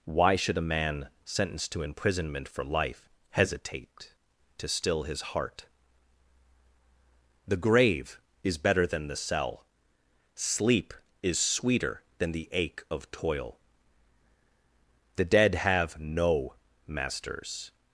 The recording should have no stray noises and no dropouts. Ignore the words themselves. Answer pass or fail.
pass